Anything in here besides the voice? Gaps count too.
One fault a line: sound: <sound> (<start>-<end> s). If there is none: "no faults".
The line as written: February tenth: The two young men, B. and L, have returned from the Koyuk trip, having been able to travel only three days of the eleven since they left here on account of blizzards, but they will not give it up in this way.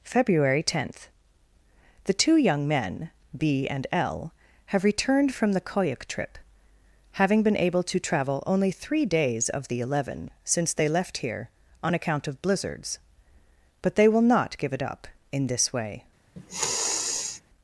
sound: sniff (16.4-17.4 s)